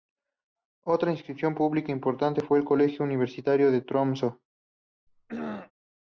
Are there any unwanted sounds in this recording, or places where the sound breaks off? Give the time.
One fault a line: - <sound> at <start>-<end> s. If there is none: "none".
- throat clearing at 5.1-5.7 s